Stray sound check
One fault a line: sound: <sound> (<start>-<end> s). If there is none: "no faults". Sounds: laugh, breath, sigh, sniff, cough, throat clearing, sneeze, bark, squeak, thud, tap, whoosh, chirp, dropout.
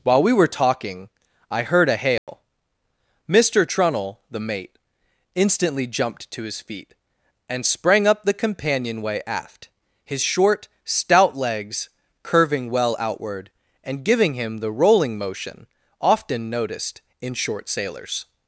sound: dropout (2.2-2.3 s)